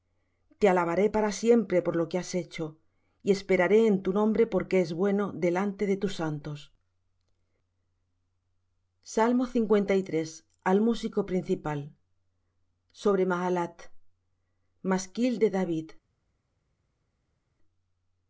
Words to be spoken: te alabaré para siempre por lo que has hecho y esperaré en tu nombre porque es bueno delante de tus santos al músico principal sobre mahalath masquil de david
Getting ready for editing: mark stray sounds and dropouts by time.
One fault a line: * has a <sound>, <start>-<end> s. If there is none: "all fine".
all fine